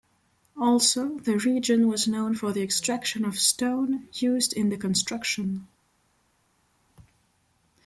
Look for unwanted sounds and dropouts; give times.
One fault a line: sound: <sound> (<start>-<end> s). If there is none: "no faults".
no faults